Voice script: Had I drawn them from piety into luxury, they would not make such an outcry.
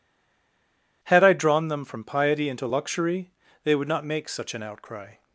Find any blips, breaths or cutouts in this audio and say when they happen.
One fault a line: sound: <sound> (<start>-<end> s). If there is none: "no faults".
no faults